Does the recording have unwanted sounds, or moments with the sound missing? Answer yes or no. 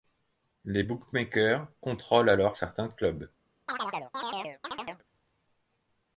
yes